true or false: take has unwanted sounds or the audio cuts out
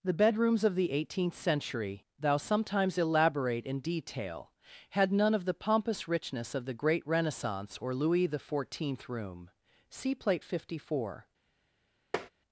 true